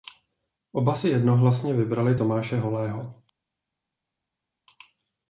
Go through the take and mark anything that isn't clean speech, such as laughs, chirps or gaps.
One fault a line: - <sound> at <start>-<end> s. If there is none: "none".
none